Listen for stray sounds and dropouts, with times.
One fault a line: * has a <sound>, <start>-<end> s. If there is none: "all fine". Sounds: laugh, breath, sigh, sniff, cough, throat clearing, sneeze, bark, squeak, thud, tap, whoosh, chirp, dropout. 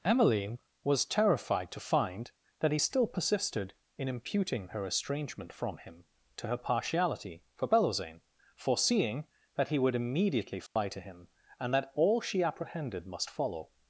* has a dropout, 10.7-10.8 s